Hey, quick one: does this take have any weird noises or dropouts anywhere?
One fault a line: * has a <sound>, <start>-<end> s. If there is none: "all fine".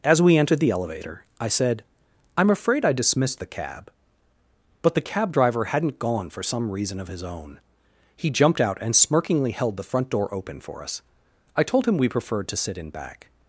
all fine